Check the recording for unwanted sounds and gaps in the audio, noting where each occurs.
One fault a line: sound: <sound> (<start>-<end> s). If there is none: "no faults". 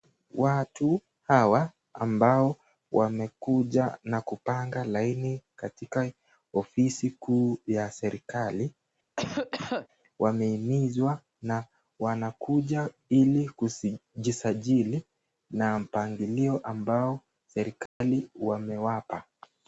sound: cough (9.2-9.9 s)
sound: dropout (17.9-18.0 s)